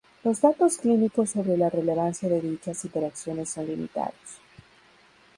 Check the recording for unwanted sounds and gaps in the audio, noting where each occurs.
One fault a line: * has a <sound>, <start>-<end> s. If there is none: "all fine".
all fine